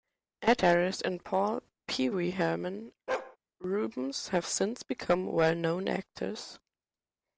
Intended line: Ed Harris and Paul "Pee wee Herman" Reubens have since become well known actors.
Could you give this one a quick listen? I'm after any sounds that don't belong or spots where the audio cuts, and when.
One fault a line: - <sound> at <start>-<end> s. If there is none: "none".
- bark at 3.1-3.4 s